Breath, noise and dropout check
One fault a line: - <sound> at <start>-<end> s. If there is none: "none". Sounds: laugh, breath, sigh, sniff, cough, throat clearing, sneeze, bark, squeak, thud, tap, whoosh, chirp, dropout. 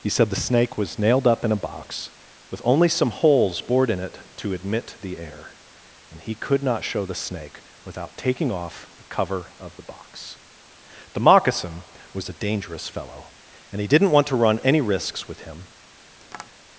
- tap at 16.2-16.5 s